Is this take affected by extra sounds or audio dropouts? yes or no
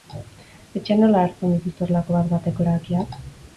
no